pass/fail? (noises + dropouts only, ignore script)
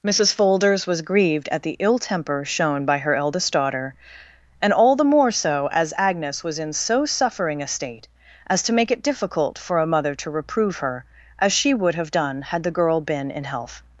pass